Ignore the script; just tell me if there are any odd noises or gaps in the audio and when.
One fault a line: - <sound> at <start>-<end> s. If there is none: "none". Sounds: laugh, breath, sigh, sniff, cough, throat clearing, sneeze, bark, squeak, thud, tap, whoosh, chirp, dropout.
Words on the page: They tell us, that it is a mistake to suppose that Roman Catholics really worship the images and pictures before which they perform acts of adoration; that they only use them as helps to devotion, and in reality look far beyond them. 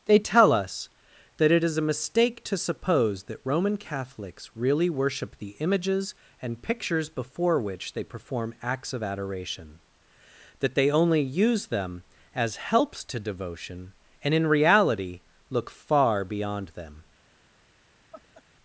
- laugh at 18.1-18.4 s